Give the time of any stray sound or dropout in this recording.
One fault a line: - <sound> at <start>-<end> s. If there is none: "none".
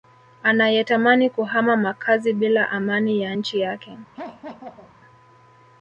- laugh at 4.1-4.9 s